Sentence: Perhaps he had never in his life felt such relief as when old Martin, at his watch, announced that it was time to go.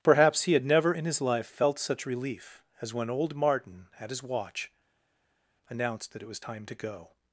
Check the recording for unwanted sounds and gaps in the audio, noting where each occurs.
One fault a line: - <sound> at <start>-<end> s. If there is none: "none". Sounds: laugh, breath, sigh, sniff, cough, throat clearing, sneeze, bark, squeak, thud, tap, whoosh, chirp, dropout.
none